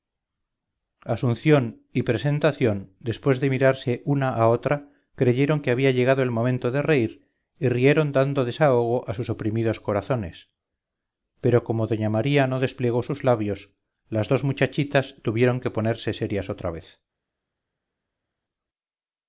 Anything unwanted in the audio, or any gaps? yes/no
no